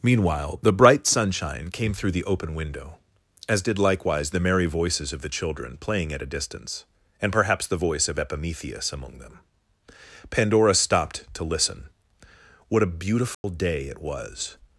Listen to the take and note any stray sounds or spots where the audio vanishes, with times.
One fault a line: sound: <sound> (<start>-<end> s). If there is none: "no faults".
sound: dropout (13.3-13.4 s)